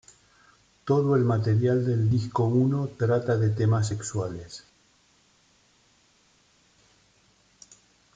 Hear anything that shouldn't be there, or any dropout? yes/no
no